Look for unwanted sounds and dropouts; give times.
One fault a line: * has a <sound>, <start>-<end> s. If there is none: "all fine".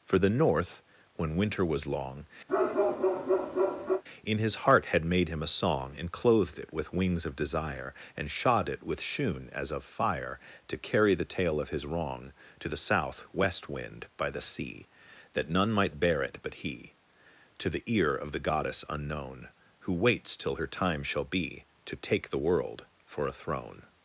* has a bark, 2.5-4.0 s